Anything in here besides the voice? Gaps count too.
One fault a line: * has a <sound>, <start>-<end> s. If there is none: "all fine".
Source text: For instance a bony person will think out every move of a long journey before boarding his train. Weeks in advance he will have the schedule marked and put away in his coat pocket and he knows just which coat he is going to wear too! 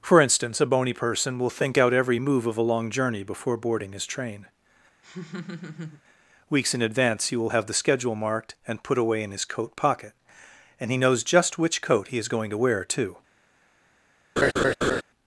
* has a laugh, 5.0-6.0 s
* has a laugh, 14.4-15.0 s